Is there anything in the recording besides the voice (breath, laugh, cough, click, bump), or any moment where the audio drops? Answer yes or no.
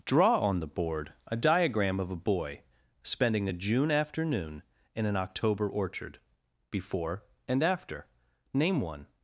no